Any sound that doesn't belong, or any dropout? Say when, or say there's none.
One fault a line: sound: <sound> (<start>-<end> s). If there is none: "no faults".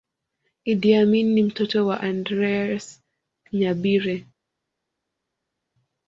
no faults